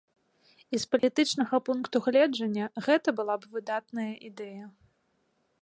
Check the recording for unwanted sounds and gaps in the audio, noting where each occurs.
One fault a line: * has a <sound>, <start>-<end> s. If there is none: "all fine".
* has a dropout, 1.0-1.0 s